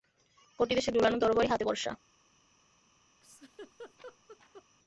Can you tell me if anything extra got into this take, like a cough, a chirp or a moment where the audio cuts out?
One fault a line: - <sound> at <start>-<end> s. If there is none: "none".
- laugh at 3.2-4.6 s